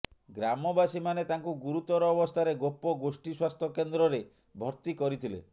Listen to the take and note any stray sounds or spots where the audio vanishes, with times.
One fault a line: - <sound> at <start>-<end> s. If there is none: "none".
none